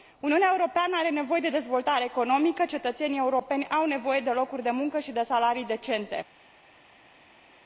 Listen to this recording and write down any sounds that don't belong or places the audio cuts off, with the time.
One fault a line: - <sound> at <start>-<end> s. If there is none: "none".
none